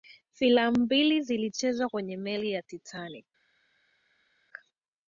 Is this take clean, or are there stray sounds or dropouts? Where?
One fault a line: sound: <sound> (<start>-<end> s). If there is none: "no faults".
no faults